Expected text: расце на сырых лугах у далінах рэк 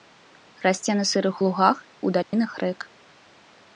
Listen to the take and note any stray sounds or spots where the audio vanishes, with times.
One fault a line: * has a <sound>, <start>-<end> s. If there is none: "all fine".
* has a dropout, 2.2-2.3 s